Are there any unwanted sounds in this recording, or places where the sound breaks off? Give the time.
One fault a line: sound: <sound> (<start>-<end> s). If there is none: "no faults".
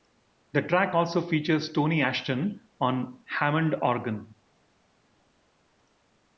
no faults